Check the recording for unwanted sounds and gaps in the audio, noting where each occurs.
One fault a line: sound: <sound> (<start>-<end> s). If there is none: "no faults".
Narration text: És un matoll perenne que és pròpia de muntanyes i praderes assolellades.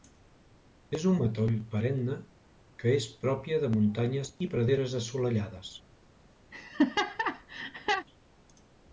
sound: laugh (6.5-8.1 s)